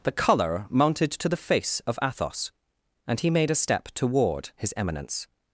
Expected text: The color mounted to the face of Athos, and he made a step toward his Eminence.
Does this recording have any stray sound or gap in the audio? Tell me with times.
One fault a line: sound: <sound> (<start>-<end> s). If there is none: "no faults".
no faults